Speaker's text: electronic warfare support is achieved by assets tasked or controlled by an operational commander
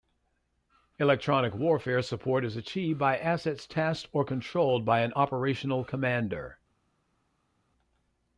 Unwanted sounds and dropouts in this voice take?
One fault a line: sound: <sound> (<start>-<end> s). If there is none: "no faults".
no faults